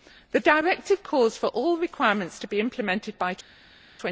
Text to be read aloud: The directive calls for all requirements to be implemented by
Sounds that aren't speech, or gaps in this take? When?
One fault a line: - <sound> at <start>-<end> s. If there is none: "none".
none